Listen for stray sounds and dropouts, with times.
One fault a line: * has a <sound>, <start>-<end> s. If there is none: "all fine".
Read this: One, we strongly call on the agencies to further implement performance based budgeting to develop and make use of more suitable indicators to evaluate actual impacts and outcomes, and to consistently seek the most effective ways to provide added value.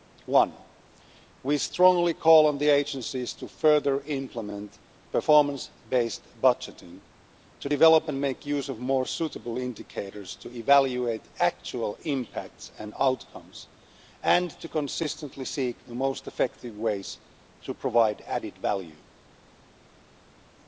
all fine